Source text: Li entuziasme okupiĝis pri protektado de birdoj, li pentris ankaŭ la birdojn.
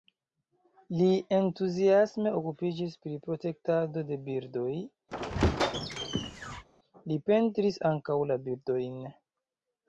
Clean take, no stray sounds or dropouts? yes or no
no